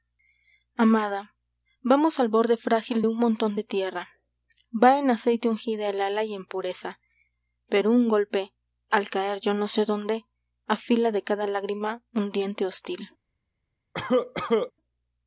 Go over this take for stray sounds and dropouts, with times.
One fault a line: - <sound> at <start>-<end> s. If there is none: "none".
- cough at 13.9-14.7 s